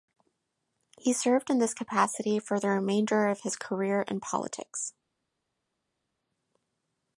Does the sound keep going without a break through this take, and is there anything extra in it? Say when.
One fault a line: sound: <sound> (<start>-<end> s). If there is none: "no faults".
no faults